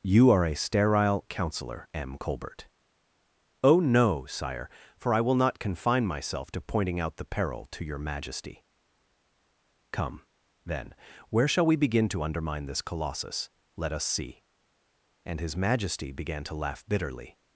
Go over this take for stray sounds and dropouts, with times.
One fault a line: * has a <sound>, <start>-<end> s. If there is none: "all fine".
all fine